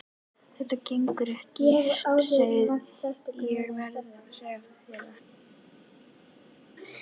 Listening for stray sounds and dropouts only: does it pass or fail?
pass